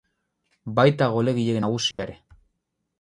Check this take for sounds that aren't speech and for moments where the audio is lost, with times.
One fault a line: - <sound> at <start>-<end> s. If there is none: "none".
- dropout at 1.9-2.0 s